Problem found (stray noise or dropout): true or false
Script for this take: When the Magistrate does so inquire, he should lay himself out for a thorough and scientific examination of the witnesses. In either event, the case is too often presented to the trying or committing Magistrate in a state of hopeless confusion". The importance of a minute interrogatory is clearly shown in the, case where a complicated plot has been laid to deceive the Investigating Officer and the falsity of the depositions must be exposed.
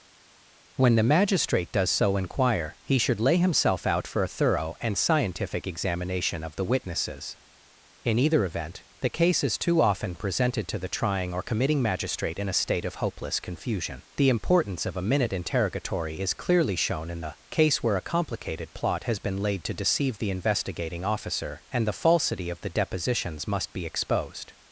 false